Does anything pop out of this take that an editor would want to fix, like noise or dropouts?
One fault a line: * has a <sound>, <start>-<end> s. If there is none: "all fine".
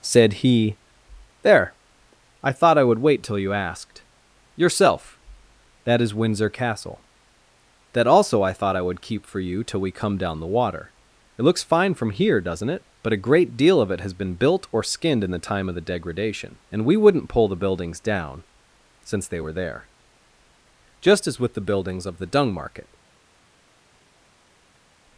all fine